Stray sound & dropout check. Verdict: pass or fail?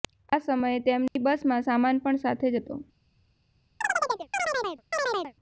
fail